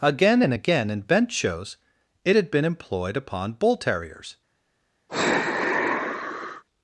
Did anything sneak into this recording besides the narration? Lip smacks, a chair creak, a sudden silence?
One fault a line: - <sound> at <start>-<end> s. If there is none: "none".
- sigh at 5.1-6.6 s